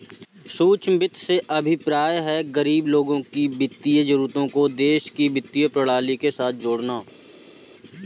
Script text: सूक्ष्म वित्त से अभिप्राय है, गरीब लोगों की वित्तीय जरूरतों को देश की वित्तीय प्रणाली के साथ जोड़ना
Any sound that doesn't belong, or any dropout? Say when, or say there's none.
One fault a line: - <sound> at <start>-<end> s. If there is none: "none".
none